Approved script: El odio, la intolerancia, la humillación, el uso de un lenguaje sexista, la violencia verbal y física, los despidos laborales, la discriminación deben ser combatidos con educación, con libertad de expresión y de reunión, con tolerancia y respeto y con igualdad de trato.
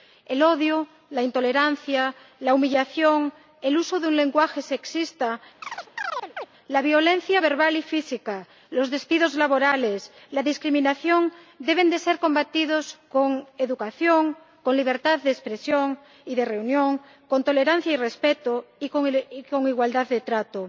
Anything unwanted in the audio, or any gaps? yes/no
yes